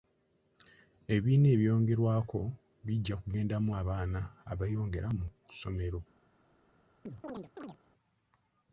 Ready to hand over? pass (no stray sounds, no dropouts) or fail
fail